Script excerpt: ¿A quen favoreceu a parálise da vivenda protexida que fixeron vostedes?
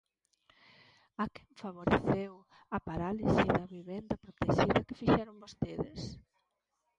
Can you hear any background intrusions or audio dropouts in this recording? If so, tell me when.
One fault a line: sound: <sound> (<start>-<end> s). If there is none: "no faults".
no faults